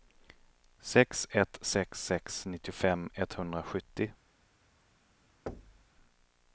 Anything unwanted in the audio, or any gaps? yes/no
yes